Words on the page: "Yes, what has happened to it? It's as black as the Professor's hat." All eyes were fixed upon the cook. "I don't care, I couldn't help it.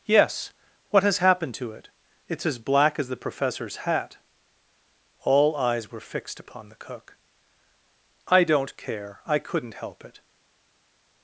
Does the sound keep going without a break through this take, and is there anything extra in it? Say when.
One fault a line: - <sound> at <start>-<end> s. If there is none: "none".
none